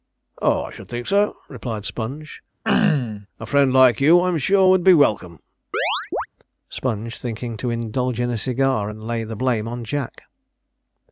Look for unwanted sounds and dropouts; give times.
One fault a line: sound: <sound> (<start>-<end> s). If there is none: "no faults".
sound: throat clearing (2.6-3.3 s)
sound: chirp (5.7-6.3 s)